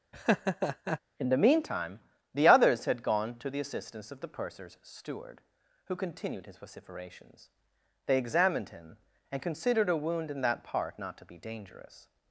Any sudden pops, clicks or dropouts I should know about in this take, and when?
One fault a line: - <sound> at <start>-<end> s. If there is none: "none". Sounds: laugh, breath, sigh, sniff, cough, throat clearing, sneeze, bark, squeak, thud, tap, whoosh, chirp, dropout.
- laugh at 0.1-1.0 s